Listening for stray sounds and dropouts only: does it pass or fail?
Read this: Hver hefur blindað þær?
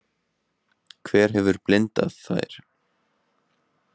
pass